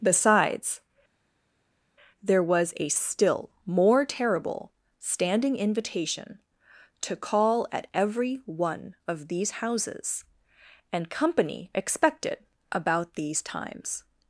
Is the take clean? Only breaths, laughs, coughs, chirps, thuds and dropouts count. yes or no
yes